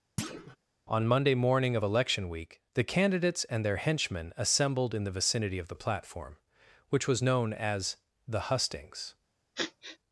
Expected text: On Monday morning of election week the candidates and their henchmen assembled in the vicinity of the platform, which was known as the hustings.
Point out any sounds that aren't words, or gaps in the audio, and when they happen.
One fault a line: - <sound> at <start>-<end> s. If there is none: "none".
- thud at 0.2-0.6 s
- sniff at 9.5-10.0 s